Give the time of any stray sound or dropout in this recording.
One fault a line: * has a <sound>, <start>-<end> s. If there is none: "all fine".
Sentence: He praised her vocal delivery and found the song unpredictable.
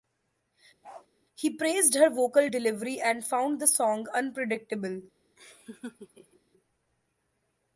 * has a bark, 0.8-1.1 s
* has a laugh, 5.4-6.4 s